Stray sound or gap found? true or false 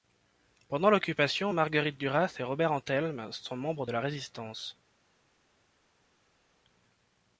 false